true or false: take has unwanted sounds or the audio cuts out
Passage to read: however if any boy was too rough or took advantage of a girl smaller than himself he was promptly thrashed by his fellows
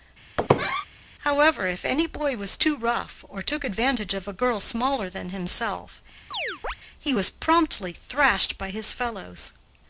true